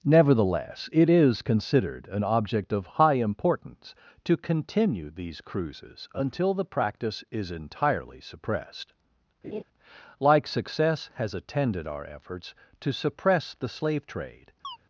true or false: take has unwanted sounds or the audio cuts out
true